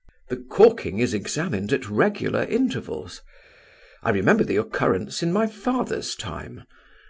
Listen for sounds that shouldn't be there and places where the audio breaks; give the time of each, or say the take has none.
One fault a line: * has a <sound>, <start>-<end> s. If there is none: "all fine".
all fine